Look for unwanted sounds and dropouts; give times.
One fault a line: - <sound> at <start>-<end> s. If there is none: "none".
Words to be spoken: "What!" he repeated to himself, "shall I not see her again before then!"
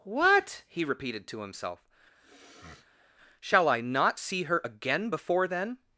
- sniff at 2.1-3.1 s